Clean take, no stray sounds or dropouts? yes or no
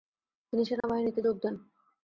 no